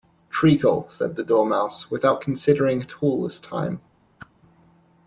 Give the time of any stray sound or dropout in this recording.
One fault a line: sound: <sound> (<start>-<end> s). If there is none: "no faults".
sound: whoosh (4.2-4.3 s)